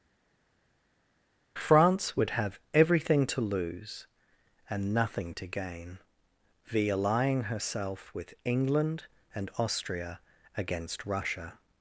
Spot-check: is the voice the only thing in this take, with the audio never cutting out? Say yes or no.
yes